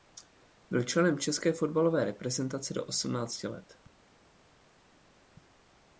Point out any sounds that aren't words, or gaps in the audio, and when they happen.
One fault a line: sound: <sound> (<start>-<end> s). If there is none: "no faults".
no faults